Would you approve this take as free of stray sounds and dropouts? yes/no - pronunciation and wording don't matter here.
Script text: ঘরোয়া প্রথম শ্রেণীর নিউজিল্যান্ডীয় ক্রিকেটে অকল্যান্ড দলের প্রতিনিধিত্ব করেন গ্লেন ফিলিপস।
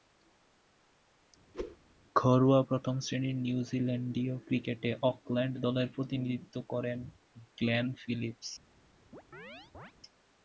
no